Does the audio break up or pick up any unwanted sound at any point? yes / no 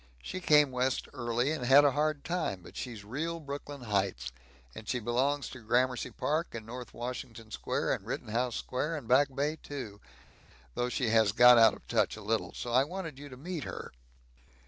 no